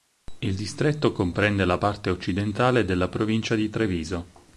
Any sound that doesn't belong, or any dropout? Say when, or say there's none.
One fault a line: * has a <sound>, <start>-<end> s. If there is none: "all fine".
all fine